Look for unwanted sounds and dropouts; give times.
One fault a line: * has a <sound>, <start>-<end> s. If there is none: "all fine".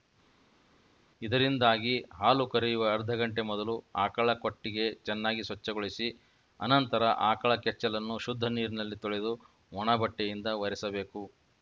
all fine